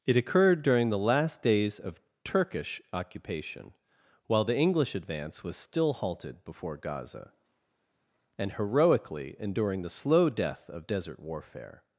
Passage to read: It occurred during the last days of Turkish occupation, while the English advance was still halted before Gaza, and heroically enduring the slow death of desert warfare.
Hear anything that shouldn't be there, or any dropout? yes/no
no